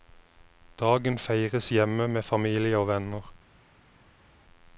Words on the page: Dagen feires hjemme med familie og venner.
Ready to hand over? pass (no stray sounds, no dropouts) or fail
pass